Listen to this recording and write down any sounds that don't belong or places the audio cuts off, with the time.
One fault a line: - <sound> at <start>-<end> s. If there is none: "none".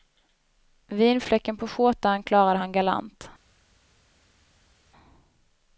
none